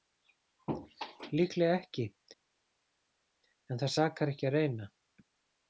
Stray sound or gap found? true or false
false